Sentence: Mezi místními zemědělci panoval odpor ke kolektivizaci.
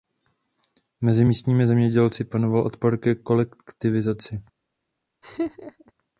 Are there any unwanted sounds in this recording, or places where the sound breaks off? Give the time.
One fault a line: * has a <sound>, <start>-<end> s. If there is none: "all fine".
* has a laugh, 5.2-5.9 s